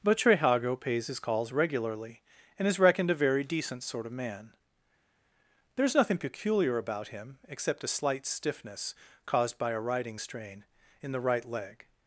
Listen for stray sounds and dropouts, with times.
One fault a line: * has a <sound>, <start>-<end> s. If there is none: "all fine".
all fine